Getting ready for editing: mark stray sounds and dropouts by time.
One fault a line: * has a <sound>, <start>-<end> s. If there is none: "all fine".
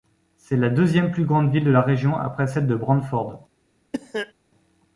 * has a cough, 3.9-4.3 s